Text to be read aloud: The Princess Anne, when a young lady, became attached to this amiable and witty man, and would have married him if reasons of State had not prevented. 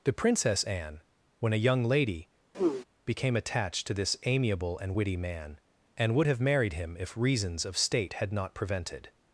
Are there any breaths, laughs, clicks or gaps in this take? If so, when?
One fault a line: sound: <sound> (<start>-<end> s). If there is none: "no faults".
sound: throat clearing (2.5-2.8 s)